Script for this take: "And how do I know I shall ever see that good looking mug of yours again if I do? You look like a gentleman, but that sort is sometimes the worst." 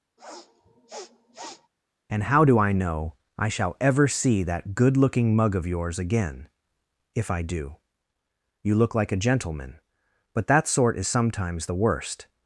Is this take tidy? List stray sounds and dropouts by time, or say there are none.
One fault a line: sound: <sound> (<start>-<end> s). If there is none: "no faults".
sound: sniff (0.2-1.7 s)